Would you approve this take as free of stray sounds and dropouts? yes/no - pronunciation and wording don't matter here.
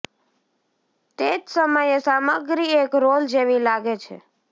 yes